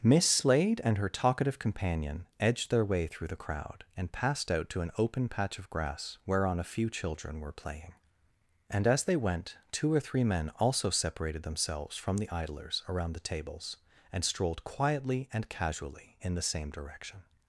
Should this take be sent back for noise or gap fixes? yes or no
no